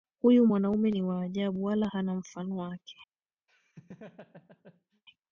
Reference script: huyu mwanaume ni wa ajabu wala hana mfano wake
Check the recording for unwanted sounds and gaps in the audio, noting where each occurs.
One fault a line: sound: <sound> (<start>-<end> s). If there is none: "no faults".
sound: laugh (3.5-5.0 s)